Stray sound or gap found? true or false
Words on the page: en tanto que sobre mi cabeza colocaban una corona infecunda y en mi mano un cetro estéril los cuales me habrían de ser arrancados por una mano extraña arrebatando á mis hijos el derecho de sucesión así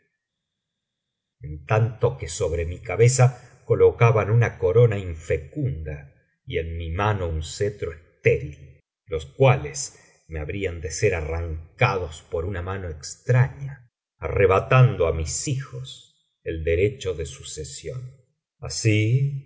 false